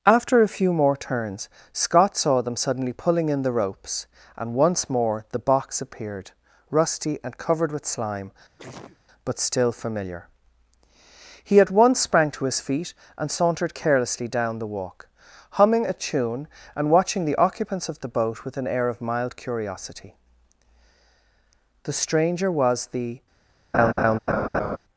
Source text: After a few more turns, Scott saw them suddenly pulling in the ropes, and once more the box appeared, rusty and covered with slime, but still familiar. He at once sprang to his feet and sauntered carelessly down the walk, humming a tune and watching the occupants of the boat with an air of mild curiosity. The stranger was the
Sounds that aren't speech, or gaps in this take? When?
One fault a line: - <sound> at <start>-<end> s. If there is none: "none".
- sneeze at 8.6-9.0 s
- laugh at 23.7-24.8 s